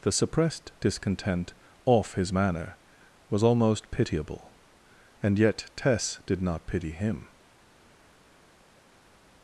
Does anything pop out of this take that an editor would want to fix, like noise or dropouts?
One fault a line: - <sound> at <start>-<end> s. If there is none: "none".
none